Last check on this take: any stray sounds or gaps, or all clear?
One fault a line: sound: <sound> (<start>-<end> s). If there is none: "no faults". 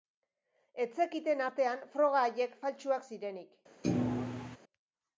sound: thud (3.8-4.6 s)